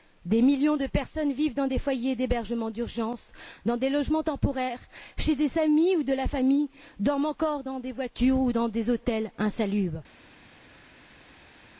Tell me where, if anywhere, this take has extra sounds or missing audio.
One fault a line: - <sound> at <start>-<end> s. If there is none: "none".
none